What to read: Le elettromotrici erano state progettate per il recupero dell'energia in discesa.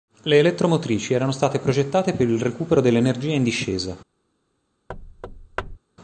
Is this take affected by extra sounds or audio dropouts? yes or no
yes